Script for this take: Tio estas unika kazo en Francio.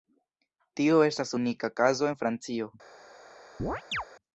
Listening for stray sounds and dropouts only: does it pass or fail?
fail